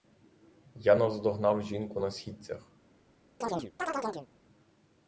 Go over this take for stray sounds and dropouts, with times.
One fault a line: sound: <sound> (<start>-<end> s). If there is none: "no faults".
sound: chirp (3.4-4.3 s)